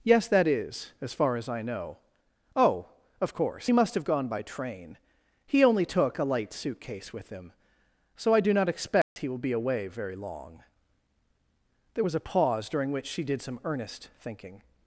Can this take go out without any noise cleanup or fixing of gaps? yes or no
no